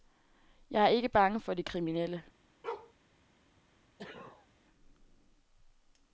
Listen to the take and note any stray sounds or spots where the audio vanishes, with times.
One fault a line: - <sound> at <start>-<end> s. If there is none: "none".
- bark at 2.6-2.9 s
- sneeze at 4.0-4.5 s